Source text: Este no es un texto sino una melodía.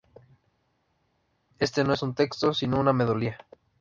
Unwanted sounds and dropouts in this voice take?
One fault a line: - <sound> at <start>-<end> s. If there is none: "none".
none